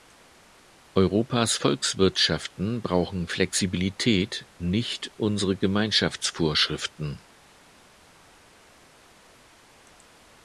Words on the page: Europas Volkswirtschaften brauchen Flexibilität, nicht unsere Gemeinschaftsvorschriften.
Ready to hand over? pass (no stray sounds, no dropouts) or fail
pass